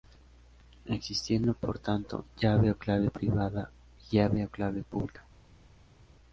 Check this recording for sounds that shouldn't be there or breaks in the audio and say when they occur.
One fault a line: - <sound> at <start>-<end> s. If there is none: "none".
none